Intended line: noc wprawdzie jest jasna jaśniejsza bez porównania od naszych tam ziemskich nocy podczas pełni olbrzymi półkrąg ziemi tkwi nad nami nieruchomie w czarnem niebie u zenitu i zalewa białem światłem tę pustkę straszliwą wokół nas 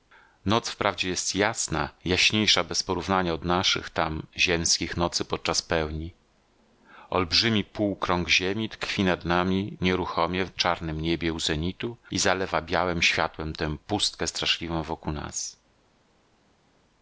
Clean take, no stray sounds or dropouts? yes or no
yes